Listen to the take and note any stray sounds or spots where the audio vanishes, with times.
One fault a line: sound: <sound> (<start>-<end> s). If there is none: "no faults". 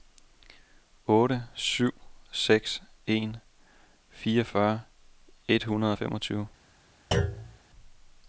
sound: thud (7.1-7.6 s)